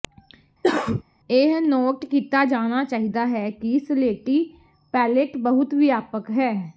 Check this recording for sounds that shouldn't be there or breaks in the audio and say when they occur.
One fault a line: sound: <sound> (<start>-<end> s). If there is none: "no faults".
sound: cough (0.6-1.0 s)